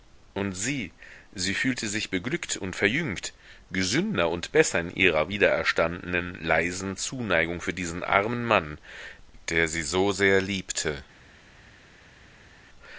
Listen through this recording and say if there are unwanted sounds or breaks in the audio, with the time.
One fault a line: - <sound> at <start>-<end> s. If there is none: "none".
none